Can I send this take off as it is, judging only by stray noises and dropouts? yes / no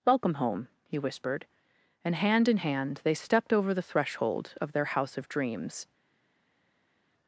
yes